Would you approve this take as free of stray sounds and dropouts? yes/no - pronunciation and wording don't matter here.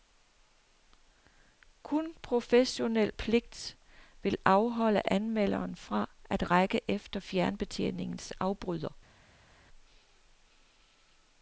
yes